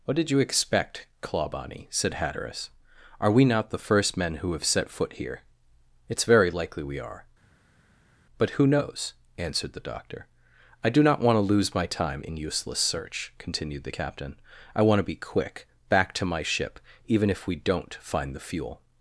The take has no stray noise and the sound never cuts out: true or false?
true